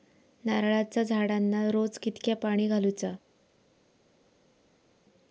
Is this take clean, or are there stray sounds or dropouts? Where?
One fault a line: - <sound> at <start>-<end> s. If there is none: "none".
none